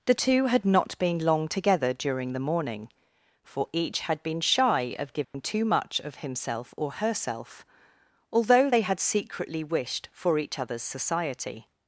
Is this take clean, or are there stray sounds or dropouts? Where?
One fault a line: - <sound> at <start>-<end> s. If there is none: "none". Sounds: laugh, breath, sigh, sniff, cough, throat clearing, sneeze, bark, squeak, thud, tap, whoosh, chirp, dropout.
- dropout at 5.2-5.3 s